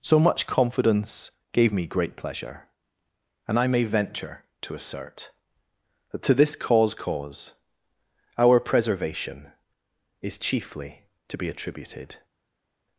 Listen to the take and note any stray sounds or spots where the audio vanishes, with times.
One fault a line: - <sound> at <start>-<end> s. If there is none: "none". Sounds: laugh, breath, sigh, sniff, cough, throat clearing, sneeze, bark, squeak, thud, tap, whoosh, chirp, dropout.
none